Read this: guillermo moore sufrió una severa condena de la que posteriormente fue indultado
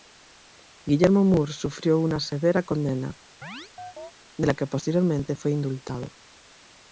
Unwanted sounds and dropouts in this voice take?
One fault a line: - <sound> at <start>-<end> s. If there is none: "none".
- chirp at 3.4-4.1 s